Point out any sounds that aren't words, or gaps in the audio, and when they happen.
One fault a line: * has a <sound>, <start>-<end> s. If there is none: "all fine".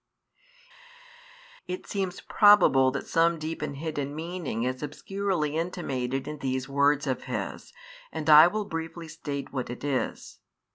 all fine